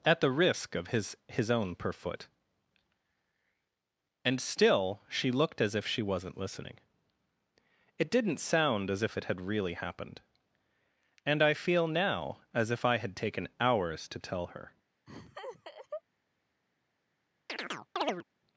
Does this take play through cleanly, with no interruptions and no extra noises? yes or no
no